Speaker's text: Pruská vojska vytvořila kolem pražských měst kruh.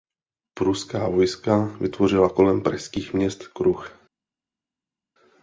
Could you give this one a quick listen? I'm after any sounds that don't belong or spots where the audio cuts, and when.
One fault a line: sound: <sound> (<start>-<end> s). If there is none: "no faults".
no faults